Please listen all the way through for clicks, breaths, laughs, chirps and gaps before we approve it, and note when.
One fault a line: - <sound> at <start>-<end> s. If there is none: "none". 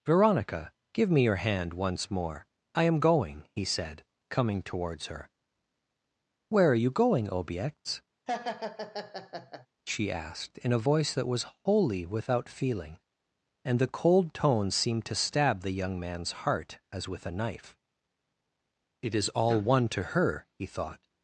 - laugh at 8.3-9.7 s